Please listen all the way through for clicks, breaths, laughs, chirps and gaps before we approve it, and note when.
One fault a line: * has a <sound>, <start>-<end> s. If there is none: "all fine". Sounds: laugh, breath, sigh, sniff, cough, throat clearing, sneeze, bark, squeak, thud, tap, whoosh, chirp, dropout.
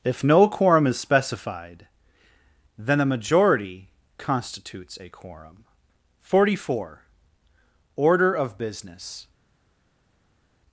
all fine